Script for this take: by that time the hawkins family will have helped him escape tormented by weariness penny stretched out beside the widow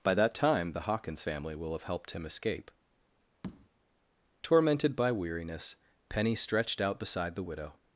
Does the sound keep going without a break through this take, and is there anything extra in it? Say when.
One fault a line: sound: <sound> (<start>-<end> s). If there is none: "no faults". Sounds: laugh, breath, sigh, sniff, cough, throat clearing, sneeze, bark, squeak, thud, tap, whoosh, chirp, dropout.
sound: tap (3.4-3.7 s)